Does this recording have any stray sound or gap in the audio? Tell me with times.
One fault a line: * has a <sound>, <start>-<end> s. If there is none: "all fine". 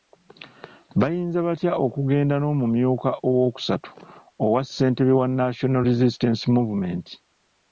all fine